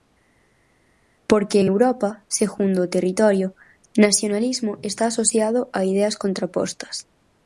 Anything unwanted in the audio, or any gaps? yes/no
no